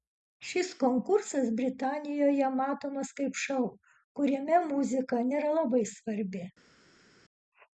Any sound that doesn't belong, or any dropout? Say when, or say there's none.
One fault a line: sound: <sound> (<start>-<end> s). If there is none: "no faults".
no faults